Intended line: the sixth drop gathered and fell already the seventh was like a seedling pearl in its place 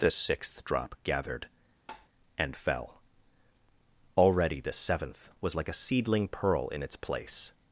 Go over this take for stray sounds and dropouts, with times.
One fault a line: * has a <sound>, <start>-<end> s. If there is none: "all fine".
* has a tap, 1.9-2.1 s